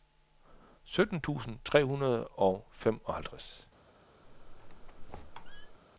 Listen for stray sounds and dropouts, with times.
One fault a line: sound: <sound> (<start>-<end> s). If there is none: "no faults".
sound: squeak (4.2-5.8 s)